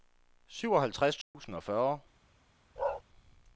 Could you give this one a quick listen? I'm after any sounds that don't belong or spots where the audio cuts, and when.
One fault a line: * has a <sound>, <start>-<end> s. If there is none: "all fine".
* has a dropout, 1.2-1.3 s
* has a bark, 2.8-3.0 s